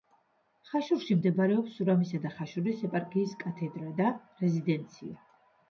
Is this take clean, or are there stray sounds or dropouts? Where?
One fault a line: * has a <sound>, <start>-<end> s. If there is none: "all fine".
all fine